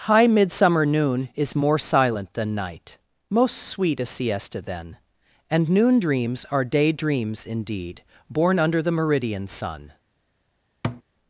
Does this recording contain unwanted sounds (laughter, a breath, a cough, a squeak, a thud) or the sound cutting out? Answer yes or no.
yes